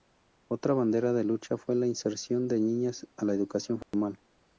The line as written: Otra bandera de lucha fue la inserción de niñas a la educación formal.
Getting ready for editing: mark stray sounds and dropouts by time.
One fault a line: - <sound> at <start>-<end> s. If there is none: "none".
- dropout at 3.8-3.9 s